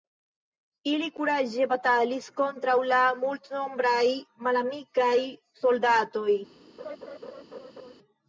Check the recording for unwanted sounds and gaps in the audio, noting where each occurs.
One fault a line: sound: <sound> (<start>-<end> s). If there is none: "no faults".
sound: laugh (6.8-7.9 s)